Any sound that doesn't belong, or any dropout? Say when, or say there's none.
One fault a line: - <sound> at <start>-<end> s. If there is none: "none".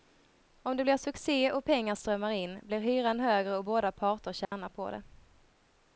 - dropout at 4.4-4.5 s